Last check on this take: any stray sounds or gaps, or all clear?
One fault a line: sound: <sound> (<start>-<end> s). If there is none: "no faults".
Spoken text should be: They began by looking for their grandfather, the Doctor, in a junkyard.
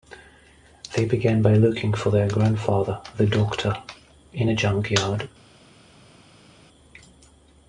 no faults